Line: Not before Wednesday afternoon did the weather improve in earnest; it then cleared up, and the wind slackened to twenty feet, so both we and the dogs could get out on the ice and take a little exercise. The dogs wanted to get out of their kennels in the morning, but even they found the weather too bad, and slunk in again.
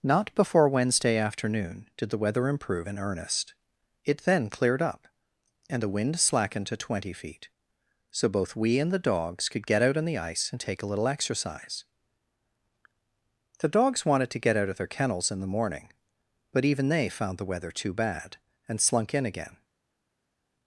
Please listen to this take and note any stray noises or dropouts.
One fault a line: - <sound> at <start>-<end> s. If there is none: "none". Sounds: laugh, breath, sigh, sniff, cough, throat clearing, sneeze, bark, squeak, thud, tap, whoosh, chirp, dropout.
none